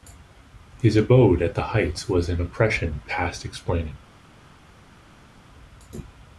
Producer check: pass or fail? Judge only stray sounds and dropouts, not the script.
pass